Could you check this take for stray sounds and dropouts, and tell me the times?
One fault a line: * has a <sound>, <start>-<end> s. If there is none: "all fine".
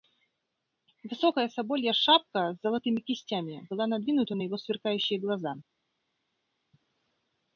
all fine